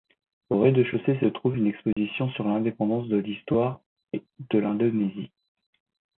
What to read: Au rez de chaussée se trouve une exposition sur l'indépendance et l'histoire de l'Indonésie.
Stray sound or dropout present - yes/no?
yes